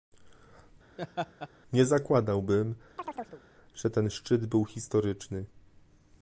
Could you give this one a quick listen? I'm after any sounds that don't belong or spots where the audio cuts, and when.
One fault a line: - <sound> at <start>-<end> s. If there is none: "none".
- laugh at 1.0-1.5 s
- chirp at 3.0-3.4 s